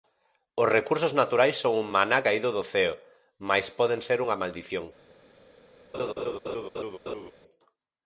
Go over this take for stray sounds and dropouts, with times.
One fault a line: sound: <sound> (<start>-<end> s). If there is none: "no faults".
sound: laugh (5.9-7.3 s)